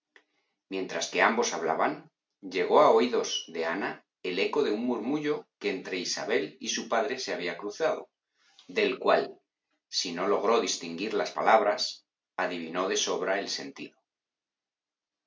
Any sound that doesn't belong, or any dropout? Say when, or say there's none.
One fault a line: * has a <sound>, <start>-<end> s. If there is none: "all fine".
all fine